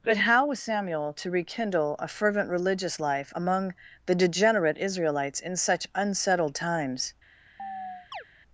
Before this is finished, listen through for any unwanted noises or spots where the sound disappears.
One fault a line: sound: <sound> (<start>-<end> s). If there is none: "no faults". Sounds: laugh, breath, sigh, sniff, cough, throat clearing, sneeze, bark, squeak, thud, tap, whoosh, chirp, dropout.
sound: chirp (7.6-8.2 s)